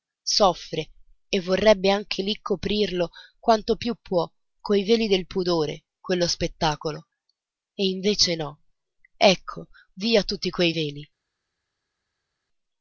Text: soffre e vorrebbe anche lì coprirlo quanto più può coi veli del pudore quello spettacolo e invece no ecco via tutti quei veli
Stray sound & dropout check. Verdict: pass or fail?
pass